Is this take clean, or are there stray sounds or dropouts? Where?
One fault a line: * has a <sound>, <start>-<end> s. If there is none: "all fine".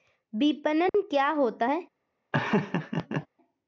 * has a dropout, 0.9-0.9 s
* has a laugh, 2.3-3.3 s